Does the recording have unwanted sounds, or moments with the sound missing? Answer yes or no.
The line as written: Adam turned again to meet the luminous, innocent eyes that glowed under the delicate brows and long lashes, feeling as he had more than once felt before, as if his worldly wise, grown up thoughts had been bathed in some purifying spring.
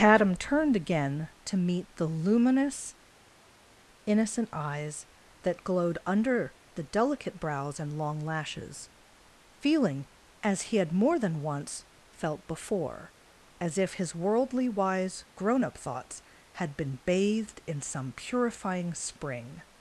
no